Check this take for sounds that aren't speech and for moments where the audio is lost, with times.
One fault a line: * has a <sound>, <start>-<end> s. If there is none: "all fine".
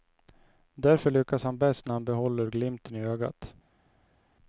all fine